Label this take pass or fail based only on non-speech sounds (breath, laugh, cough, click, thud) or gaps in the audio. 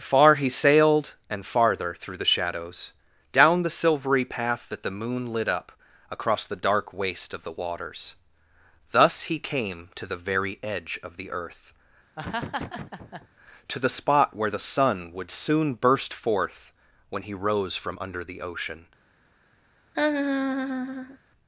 fail